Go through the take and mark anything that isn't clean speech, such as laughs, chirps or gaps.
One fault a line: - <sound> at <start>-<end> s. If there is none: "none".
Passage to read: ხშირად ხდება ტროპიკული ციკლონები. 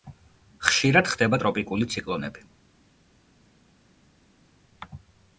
none